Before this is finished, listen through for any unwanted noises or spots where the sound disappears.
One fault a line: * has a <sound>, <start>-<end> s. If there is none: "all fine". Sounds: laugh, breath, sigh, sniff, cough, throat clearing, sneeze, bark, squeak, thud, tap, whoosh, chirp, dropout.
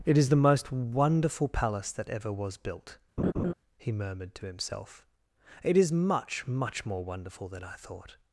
* has a laugh, 3.2-3.5 s